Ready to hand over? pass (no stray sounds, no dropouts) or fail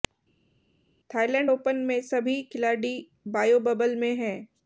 pass